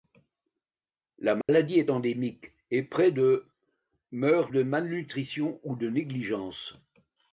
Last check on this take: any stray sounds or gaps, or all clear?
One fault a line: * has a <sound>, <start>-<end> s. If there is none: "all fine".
* has a dropout, 1.4-1.5 s